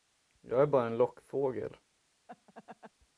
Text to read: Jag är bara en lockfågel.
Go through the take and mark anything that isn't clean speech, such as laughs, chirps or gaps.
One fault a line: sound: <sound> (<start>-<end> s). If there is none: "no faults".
sound: laugh (2.3-2.9 s)